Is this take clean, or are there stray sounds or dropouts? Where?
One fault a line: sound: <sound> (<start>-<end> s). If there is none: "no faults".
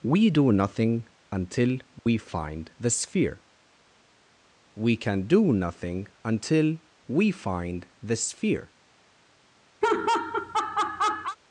sound: dropout (2.0-2.1 s)
sound: laugh (9.8-11.4 s)